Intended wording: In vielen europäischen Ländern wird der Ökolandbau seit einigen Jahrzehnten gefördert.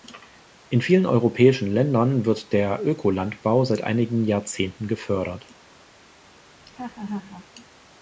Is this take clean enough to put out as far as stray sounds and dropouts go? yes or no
no